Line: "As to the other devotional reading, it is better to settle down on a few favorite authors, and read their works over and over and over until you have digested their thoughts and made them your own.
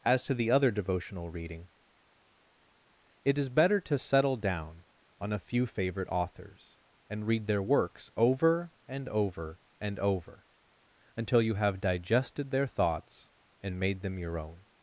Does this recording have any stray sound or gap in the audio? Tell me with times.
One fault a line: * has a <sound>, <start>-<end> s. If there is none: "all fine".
all fine